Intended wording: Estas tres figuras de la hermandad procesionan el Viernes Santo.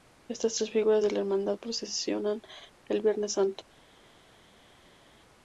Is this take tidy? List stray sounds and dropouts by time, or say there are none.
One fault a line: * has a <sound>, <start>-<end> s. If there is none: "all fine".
all fine